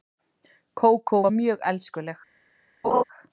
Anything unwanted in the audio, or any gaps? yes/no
yes